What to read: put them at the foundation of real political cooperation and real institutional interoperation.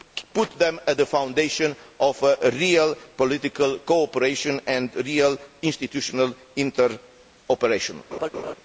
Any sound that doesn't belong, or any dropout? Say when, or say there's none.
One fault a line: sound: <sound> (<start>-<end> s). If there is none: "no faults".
sound: laugh (8.1-8.5 s)